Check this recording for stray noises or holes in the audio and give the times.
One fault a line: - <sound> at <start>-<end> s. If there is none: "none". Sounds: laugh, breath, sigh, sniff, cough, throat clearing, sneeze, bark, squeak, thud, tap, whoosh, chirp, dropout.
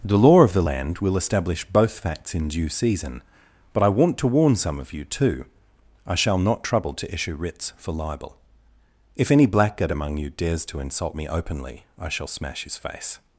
none